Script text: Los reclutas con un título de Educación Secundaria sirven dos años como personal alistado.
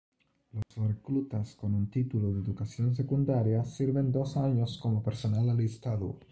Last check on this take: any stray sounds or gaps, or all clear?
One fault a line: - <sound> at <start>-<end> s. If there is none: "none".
- dropout at 0.6-0.7 s